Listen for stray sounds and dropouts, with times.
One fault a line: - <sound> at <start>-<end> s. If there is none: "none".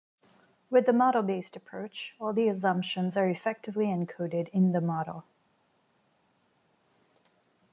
none